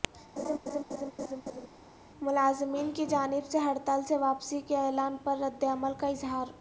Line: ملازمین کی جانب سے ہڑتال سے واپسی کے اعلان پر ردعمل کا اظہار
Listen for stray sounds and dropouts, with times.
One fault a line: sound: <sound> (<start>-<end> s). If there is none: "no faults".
sound: laugh (0.4-1.7 s)